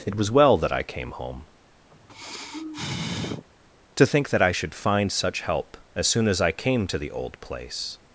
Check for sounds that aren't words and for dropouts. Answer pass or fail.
fail